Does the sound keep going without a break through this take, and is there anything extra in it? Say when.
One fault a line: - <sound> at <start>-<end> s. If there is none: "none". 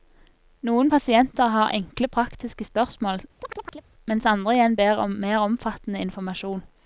- chirp at 3.4-3.9 s